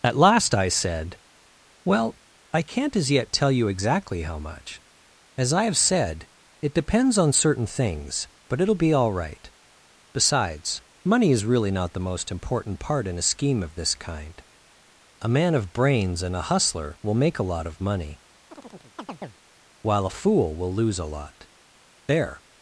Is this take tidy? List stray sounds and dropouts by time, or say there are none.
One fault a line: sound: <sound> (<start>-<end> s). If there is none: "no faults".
sound: chirp (18.5-19.4 s)